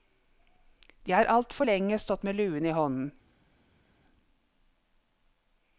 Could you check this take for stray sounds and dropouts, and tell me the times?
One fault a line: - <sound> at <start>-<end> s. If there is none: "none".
none